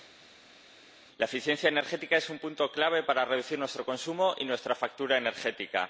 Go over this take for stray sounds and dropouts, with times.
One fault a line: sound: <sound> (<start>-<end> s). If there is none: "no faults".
no faults